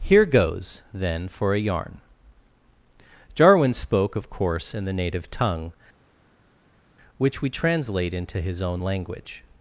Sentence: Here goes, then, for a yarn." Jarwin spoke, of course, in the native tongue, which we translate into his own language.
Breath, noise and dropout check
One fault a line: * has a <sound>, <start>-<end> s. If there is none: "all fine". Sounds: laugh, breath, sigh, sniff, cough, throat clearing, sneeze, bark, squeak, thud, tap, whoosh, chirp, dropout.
all fine